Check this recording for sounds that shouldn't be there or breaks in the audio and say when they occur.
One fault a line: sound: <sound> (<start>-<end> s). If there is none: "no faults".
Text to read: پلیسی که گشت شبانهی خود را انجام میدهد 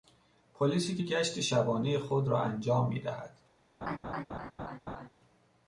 sound: laugh (3.8-5.1 s)